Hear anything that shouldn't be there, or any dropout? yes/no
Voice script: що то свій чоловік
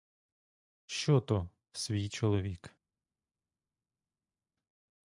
no